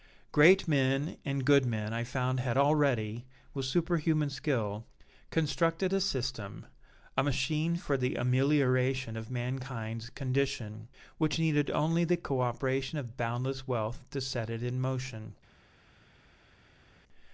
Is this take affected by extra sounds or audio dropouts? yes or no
no